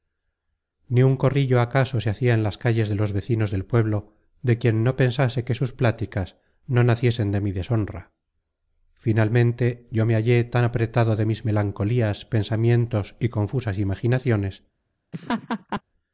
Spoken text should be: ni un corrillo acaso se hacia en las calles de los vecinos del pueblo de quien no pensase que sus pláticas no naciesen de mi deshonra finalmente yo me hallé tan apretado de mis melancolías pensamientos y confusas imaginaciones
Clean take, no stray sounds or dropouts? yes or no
no